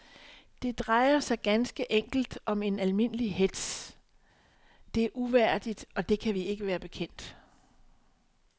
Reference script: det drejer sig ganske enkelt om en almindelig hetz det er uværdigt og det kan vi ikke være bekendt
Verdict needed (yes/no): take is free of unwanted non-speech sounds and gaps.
yes